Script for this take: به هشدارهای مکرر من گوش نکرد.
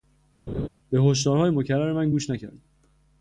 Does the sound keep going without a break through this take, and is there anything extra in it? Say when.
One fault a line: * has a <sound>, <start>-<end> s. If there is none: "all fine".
* has a laugh, 0.5-0.7 s